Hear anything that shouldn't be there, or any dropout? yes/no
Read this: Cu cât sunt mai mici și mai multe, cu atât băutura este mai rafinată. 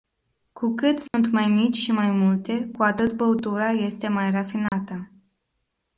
yes